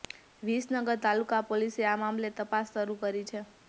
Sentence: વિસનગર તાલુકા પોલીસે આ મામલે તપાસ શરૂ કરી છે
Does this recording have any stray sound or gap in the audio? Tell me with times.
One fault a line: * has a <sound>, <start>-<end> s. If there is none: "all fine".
all fine